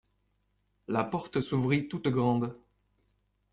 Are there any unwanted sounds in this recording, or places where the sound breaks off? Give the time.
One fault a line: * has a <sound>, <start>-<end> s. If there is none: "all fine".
all fine